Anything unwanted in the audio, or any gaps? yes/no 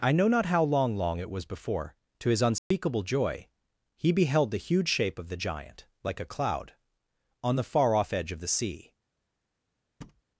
yes